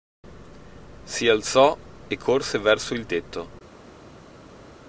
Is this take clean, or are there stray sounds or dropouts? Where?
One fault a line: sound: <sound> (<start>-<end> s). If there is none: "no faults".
no faults